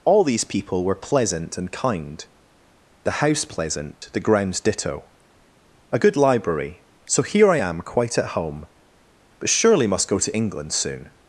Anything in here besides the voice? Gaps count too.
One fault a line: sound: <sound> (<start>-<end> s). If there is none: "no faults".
sound: dropout (3.9-4.0 s)